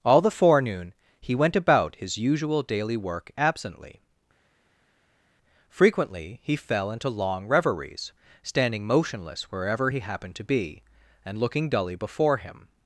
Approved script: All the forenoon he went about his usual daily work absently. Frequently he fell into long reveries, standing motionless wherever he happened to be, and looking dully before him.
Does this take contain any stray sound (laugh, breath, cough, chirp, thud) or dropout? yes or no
no